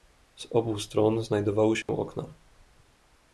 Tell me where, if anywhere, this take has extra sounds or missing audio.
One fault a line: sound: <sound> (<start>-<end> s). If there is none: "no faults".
sound: dropout (1.8-1.9 s)